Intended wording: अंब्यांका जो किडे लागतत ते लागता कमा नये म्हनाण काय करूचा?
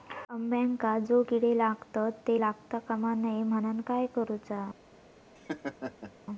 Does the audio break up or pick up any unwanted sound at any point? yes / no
yes